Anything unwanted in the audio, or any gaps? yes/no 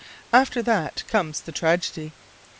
no